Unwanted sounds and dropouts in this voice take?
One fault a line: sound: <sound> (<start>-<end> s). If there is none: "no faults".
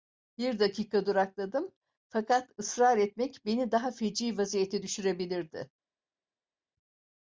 no faults